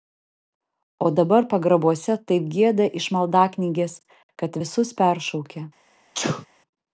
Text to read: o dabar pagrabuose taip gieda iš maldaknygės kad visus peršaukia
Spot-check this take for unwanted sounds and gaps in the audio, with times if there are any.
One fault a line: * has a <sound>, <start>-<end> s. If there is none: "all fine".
* has a sneeze, 6.1-6.5 s